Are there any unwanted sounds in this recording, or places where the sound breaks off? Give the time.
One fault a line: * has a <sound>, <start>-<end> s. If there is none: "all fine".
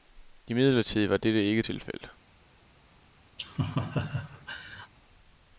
* has a laugh, 3.4-4.9 s